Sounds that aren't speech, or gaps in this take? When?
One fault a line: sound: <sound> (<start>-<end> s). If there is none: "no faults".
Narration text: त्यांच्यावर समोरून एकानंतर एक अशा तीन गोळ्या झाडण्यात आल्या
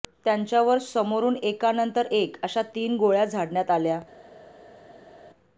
no faults